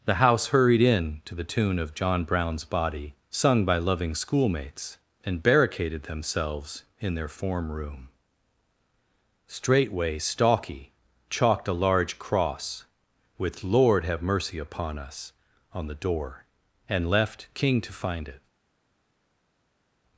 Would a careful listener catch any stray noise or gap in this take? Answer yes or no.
no